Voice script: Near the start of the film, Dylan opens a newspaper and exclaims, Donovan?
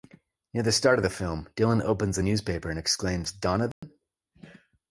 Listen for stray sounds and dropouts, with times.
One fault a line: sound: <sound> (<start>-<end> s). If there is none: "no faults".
sound: dropout (3.7-3.8 s)